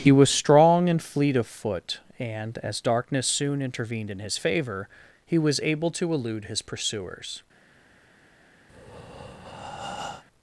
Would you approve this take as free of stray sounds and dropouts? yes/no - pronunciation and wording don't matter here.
no